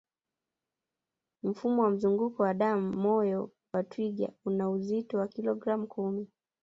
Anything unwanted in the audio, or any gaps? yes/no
no